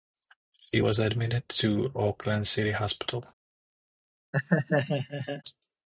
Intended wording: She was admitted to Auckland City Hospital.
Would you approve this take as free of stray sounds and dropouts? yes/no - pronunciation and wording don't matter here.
no